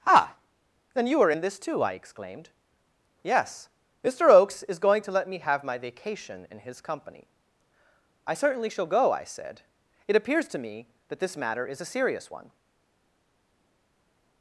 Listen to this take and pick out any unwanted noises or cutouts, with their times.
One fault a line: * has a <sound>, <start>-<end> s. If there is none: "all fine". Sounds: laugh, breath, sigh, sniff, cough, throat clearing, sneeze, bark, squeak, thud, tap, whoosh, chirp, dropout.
all fine